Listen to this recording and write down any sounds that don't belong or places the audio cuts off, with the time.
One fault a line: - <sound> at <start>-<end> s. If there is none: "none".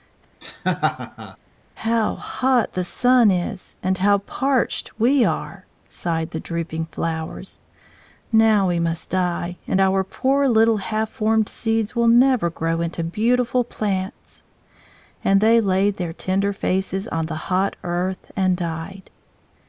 - laugh at 0.4-1.4 s